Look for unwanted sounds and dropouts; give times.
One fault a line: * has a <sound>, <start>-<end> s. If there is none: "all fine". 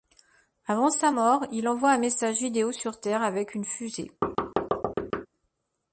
* has a thud, 4.2-5.3 s